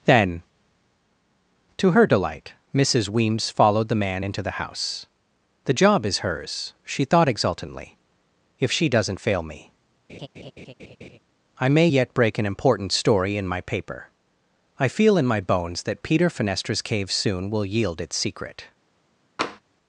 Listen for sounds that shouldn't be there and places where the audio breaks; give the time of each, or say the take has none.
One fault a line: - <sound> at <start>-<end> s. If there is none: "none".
- laugh at 10.1-11.2 s
- tap at 19.4-19.6 s